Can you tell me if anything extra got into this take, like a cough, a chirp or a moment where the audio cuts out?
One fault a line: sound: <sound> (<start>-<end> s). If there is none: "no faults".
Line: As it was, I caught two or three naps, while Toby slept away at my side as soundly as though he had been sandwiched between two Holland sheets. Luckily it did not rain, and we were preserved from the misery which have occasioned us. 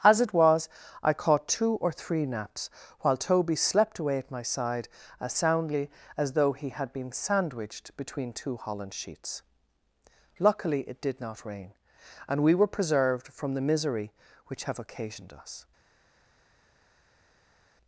no faults